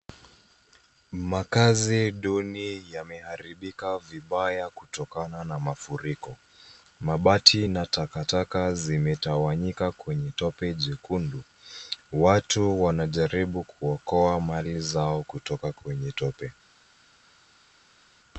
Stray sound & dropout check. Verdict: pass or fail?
pass